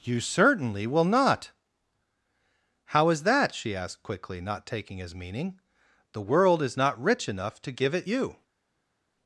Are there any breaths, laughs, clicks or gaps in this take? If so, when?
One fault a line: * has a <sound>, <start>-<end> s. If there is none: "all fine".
all fine